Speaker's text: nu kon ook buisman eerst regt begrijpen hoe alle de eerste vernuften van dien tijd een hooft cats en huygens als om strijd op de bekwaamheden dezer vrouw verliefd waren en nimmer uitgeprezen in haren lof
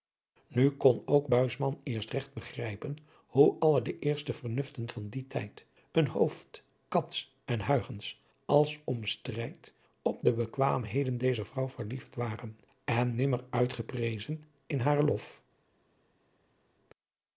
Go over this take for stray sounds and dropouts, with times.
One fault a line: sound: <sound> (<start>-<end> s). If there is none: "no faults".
no faults